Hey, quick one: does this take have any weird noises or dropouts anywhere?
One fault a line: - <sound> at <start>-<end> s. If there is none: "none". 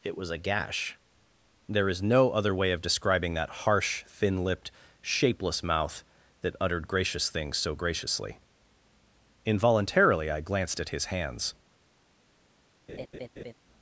- laugh at 12.9-13.5 s